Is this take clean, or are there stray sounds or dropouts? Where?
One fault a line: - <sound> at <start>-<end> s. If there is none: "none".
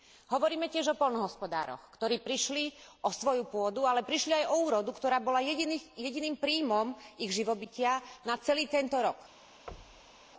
- thud at 9.7-10.2 s